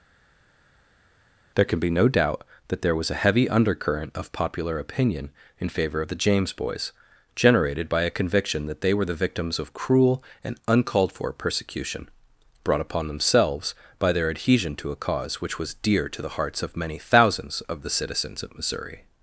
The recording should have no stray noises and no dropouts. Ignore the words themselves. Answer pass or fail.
pass